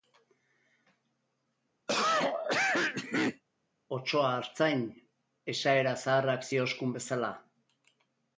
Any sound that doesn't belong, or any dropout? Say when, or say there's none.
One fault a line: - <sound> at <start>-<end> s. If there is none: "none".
- cough at 1.9-3.4 s